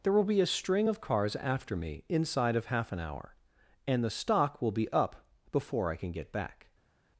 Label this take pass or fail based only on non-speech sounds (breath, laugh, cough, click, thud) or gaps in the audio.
pass